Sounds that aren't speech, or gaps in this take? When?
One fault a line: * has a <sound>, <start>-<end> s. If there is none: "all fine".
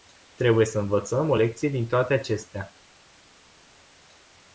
all fine